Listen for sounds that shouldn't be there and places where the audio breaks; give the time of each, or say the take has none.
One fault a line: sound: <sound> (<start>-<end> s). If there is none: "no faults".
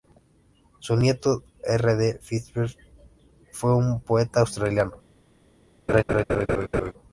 sound: laugh (5.9-6.9 s)